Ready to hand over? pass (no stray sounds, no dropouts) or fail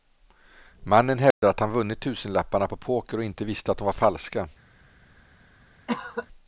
fail